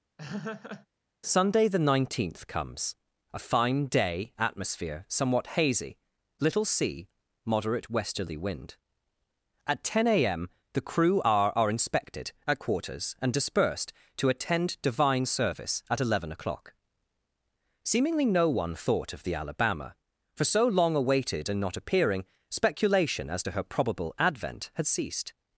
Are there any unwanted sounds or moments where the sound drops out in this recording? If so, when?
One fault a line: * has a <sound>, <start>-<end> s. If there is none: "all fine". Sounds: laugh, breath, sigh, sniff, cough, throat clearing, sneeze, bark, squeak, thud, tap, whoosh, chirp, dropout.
* has a laugh, 0.2-0.9 s